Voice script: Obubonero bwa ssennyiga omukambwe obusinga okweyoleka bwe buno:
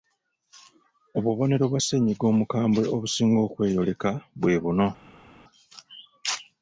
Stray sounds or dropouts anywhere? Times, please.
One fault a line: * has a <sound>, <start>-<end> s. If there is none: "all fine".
all fine